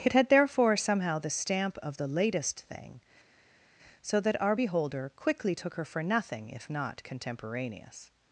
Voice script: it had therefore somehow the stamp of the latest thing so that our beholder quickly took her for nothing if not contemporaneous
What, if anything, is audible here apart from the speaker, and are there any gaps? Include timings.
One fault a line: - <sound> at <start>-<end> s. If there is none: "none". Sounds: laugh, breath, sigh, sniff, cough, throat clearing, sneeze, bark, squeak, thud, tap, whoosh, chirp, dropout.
none